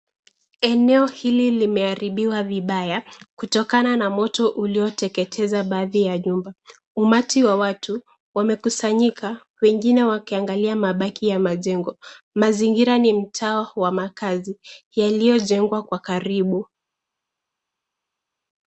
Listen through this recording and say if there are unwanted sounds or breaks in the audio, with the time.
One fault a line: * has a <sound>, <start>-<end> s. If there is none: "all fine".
all fine